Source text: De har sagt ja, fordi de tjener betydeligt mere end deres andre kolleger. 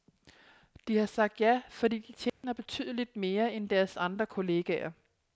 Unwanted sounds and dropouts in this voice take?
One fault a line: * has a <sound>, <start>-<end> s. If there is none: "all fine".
* has a dropout, 2.3-2.4 s